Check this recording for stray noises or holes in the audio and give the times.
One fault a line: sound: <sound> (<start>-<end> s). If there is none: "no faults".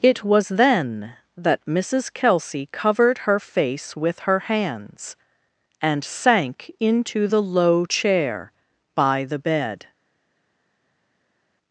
no faults